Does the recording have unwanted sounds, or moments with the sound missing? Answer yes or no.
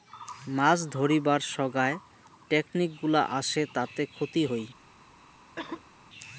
yes